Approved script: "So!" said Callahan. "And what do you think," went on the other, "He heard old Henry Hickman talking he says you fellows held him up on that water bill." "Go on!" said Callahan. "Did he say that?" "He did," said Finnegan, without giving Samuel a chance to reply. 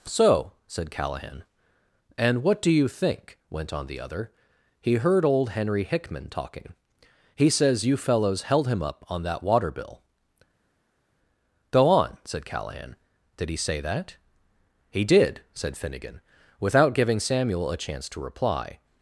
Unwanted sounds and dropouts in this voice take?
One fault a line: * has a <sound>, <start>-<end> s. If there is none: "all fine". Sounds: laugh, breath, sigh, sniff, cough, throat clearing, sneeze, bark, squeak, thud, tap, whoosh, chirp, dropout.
all fine